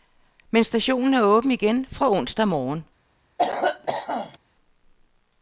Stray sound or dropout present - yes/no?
yes